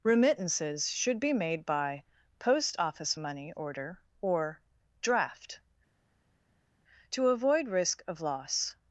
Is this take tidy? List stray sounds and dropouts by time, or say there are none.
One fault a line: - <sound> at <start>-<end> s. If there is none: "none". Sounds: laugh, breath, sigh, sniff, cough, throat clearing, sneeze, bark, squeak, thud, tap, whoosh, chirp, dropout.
none